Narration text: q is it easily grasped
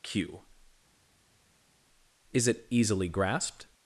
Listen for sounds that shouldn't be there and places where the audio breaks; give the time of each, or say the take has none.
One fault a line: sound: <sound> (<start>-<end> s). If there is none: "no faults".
no faults